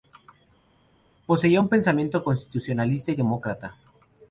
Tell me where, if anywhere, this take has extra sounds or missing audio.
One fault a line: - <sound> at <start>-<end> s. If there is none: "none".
none